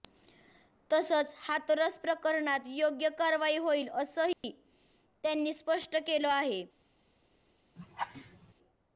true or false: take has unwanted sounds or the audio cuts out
true